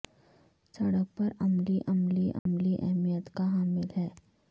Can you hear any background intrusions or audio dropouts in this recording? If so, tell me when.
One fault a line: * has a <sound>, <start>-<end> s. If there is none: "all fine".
* has a dropout, 2.4-2.5 s